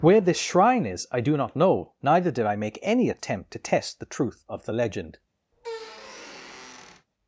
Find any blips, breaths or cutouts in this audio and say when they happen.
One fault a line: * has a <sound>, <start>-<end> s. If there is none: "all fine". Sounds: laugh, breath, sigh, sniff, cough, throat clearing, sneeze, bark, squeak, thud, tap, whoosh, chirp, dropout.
* has a squeak, 5.5-7.1 s